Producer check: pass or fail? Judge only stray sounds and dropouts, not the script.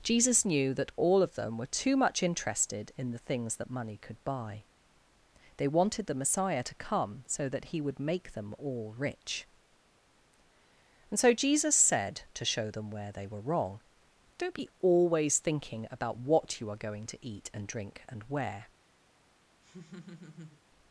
fail